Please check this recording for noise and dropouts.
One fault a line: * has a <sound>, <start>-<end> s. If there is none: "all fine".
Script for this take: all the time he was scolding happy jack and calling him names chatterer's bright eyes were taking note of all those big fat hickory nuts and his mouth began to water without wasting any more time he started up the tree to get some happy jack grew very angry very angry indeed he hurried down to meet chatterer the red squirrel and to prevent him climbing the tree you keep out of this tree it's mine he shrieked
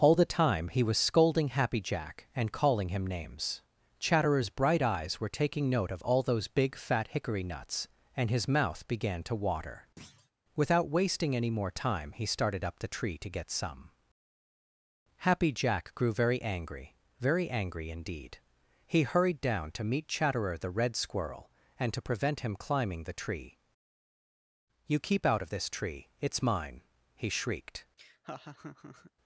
* has a thud, 10.0-10.3 s
* has a laugh, 28.0-29.1 s